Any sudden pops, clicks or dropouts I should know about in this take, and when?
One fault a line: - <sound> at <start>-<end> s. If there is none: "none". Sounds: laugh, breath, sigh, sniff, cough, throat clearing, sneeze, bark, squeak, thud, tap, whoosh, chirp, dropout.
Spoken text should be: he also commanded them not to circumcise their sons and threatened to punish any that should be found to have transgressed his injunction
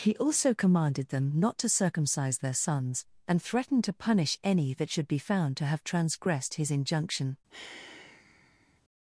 - sigh at 7.5-8.8 s